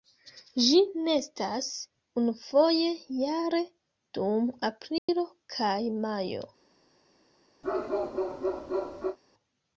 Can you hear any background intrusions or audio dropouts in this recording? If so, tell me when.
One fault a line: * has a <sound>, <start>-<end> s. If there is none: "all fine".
* has a dropout, 5.0-5.1 s
* has a bark, 7.6-9.2 s